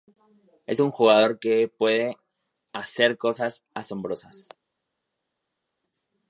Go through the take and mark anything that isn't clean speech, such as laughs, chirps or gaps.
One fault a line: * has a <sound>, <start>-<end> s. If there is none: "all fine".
all fine